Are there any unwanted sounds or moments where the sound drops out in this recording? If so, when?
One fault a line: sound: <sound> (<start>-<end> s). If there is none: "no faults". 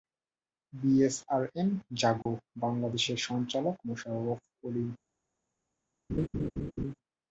sound: dropout (2.2-2.3 s)
sound: laugh (6.1-7.0 s)